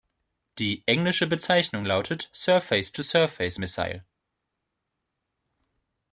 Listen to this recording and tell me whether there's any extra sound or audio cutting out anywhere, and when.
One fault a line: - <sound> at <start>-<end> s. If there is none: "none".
none